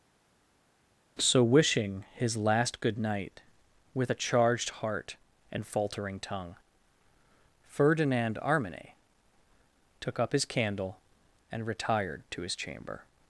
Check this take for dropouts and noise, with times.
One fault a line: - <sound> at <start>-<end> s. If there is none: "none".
none